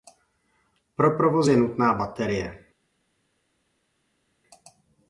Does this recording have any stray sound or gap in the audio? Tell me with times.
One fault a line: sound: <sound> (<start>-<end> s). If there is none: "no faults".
no faults